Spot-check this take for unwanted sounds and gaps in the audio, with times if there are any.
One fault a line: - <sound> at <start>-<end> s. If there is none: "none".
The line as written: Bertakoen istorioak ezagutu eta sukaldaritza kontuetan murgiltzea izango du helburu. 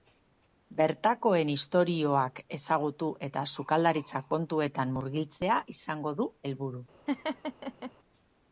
- laugh at 7.1-7.9 s